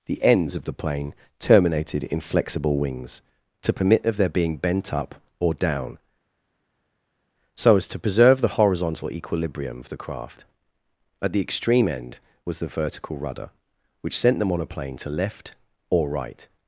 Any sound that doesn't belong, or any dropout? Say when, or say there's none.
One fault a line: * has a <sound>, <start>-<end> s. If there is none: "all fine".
all fine